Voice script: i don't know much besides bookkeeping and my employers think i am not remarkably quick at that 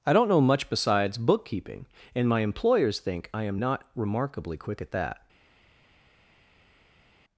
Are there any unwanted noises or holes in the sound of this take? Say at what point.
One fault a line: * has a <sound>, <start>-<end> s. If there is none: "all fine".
all fine